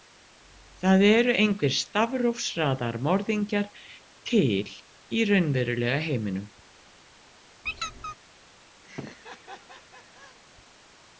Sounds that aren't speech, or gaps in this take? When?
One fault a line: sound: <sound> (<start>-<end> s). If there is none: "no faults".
sound: squeak (7.6-8.2 s)
sound: laugh (8.8-10.4 s)